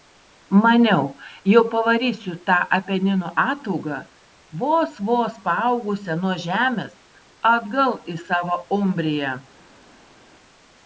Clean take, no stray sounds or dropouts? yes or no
yes